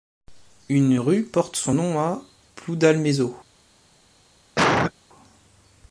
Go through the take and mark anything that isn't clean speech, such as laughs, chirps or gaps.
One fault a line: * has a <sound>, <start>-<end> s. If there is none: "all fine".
* has a cough, 4.6-4.9 s